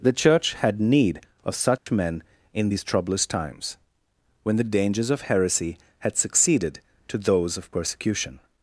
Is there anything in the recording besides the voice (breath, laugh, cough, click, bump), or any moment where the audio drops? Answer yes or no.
yes